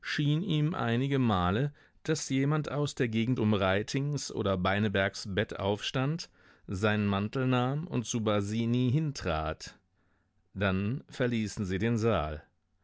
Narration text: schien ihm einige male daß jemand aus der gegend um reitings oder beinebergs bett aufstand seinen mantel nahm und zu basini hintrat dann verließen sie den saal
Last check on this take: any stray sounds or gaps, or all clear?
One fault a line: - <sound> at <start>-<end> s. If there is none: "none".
none